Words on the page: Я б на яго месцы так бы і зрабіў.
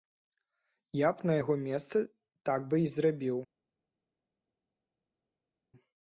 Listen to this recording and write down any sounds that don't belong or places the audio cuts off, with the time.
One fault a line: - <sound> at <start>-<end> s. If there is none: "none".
none